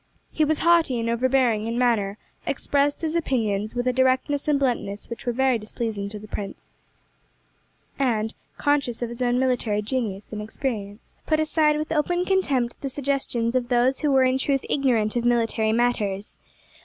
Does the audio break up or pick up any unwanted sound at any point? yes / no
no